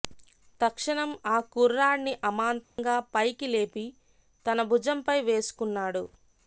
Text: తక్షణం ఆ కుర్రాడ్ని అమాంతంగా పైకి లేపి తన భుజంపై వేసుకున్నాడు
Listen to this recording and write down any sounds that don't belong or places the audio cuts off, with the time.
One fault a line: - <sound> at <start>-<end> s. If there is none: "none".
- dropout at 2.6-2.8 s